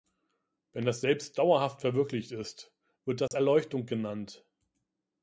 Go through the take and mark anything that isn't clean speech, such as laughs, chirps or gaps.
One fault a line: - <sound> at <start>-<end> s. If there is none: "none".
- dropout at 3.3-3.3 s